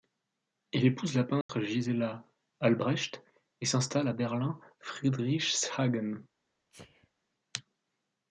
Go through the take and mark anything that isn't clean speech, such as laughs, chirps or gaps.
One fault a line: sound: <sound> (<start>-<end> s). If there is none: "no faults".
sound: dropout (1.4-1.5 s)
sound: sneeze (6.7-7.1 s)